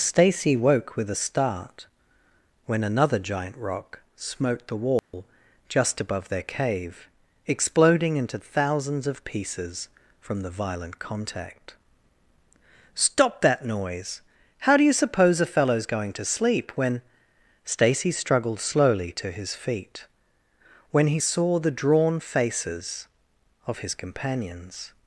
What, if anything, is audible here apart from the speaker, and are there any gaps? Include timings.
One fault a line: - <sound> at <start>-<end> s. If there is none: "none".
- dropout at 5.0-5.1 s